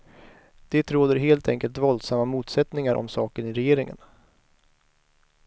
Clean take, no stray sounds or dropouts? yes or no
yes